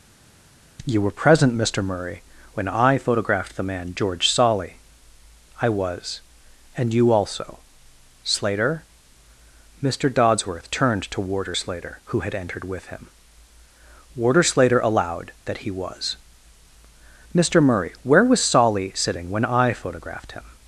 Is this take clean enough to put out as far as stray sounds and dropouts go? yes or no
yes